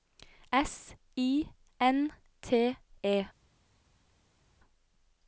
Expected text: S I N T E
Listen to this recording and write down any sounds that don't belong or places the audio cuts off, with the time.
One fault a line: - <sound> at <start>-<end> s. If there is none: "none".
none